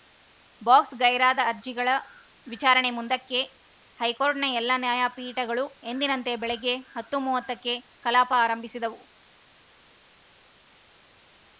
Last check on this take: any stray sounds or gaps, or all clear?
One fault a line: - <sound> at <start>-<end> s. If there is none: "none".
none